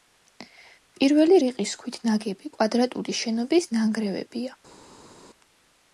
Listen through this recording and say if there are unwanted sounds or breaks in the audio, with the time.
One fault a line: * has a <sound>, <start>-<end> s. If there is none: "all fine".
all fine